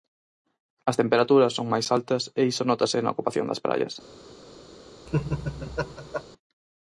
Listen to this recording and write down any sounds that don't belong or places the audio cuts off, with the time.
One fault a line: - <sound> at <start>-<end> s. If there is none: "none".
- laugh at 5.1-6.2 s